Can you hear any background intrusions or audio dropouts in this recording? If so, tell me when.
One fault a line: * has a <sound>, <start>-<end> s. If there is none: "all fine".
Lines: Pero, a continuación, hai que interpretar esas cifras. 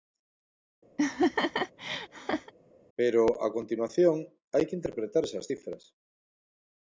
* has a laugh, 1.0-2.5 s